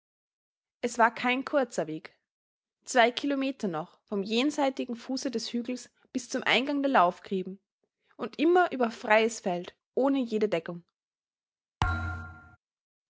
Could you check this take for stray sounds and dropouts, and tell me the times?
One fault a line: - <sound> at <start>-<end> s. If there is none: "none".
- thud at 11.8-12.6 s